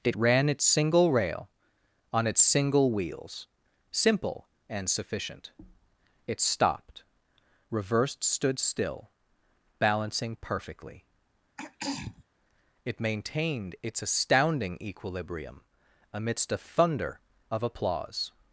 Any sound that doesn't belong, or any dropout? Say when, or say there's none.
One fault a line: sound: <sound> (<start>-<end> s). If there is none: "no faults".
sound: throat clearing (11.6-12.2 s)